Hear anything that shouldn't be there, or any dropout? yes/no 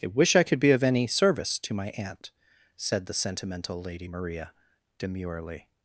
no